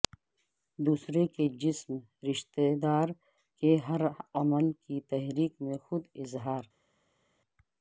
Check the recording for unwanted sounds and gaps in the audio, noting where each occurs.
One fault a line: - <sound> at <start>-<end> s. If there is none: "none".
none